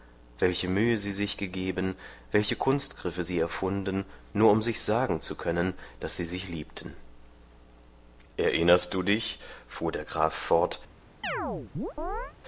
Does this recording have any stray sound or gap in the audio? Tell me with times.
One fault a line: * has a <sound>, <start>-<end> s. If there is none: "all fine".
* has a chirp, 11.2-12.3 s